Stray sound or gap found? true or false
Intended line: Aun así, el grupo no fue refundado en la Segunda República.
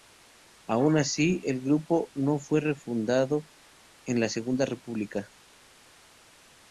false